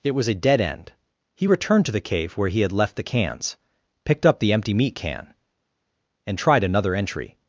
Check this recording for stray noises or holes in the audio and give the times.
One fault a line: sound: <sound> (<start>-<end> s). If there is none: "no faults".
no faults